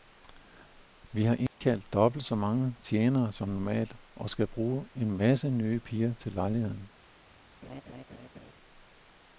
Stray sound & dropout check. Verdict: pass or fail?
fail